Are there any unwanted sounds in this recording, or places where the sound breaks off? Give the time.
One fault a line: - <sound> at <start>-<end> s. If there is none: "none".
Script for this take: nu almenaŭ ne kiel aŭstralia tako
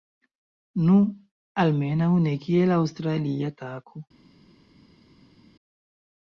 none